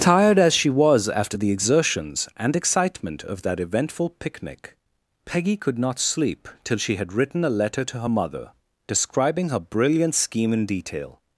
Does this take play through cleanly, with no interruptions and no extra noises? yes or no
yes